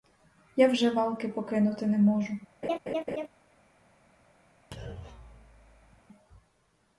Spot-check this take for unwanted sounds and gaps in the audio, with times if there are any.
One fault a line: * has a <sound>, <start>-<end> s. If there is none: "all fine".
* has a laugh, 2.6-3.3 s
* has a thud, 4.7-6.0 s